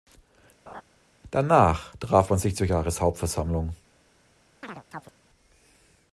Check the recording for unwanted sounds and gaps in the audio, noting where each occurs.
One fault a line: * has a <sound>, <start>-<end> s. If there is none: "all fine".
* has a laugh, 0.7-0.8 s
* has a chirp, 4.6-5.1 s